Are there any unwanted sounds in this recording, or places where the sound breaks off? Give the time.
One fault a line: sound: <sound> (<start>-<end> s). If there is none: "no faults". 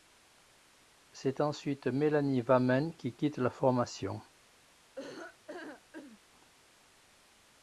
sound: laugh (5.0-6.2 s)